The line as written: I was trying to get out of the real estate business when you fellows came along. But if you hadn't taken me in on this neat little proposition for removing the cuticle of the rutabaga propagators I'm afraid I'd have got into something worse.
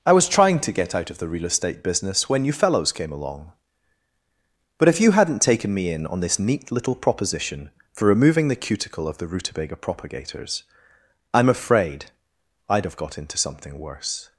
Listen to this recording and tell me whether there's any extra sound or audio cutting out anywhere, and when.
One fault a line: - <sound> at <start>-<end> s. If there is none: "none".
none